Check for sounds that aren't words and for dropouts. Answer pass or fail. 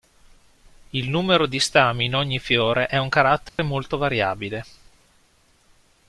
fail